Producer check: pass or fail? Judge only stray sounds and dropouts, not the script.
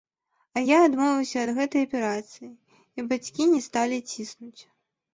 pass